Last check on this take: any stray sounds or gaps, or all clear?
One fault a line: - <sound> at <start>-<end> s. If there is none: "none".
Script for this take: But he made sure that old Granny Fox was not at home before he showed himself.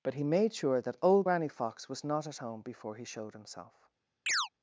- chirp at 4.3-4.5 s